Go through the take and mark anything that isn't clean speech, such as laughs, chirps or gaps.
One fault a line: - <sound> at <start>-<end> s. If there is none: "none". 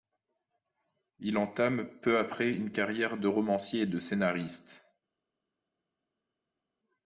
none